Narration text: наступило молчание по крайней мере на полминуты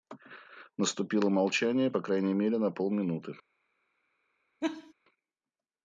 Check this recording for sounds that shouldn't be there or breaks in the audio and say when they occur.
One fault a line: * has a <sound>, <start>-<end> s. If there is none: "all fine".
* has a laugh, 4.6-4.9 s